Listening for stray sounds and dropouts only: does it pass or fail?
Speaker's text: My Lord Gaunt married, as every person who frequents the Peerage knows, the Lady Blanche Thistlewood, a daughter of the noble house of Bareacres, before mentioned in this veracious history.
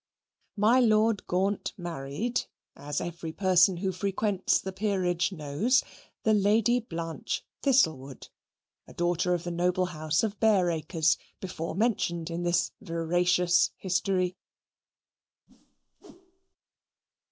fail